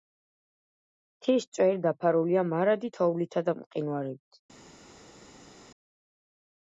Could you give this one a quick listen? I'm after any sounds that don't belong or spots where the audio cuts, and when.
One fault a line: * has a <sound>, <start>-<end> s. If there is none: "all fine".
all fine